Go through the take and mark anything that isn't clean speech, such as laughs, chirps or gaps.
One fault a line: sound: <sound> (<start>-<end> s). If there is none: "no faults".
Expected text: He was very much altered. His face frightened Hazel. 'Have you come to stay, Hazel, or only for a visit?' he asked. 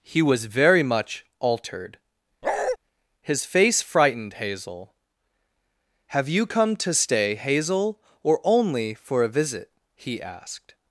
sound: bark (2.4-2.8 s)